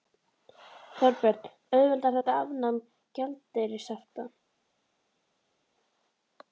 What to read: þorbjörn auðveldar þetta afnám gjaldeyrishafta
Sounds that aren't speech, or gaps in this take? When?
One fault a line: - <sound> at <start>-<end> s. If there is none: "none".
none